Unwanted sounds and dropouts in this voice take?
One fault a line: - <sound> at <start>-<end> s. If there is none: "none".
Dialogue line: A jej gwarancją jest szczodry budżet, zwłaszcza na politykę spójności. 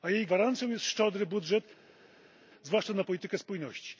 none